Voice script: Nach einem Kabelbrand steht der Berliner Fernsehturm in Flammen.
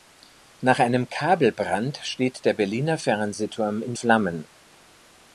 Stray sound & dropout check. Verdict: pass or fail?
pass